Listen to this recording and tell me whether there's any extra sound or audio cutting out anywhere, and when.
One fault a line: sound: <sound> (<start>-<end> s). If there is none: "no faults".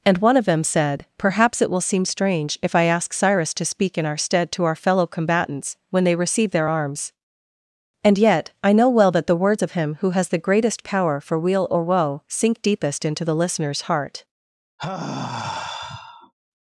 sound: sigh (14.8-16.3 s)